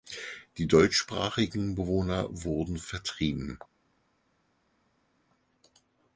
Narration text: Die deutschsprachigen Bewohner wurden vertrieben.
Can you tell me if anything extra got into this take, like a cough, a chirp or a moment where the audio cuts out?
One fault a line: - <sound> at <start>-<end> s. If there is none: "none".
none